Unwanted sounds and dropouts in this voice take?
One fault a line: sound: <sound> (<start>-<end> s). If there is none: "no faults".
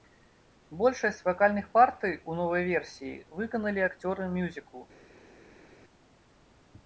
no faults